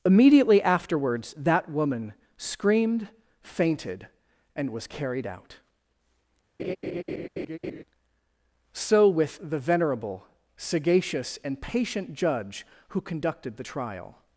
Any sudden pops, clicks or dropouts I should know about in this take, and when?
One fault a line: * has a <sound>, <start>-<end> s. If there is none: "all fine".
* has a laugh, 6.6-7.8 s